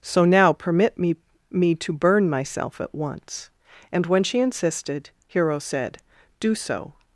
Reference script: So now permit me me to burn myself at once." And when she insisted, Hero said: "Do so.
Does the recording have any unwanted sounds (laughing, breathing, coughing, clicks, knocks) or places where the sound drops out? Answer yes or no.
no